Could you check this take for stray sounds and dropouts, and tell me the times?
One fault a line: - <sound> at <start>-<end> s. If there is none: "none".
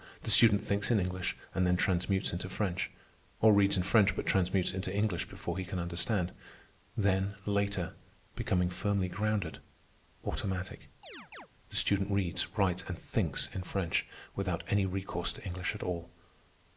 - chirp at 11.0-11.5 s